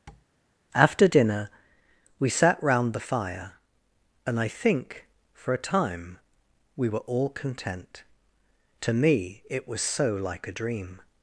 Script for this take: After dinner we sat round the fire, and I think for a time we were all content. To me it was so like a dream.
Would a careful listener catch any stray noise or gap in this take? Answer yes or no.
yes